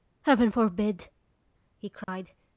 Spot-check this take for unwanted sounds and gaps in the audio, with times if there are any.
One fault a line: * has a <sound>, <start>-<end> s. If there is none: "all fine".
* has a dropout, 2.0-2.1 s